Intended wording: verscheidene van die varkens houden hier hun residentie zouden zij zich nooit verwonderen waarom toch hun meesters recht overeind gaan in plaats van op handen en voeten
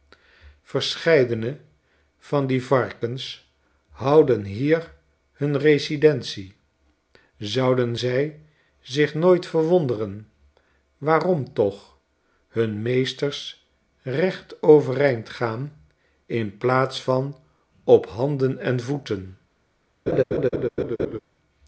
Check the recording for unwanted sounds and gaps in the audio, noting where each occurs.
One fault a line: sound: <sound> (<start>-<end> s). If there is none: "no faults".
sound: laugh (20.1-21.2 s)